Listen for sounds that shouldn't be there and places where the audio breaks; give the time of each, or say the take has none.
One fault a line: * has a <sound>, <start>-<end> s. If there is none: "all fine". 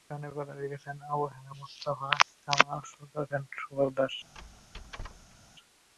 * has a squeak, 4.3-5.4 s